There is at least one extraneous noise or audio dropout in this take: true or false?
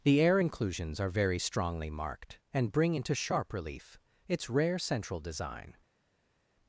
false